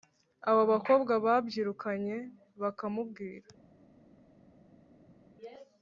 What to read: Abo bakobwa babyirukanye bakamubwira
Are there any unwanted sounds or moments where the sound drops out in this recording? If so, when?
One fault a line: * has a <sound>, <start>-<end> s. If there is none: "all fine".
all fine